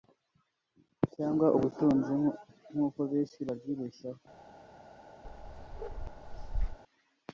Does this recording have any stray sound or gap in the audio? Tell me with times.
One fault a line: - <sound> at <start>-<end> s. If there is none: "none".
- bark at 5.2-6.8 s